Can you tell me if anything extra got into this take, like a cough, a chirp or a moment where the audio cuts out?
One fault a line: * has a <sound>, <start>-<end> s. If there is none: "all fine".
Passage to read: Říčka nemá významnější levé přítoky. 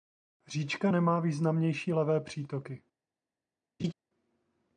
* has a laugh, 3.8-3.9 s